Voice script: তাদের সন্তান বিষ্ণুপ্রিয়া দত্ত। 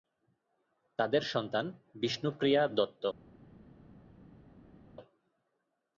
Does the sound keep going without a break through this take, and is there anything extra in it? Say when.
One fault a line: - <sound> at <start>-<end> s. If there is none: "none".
none